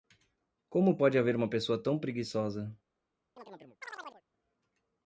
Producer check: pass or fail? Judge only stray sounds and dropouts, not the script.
fail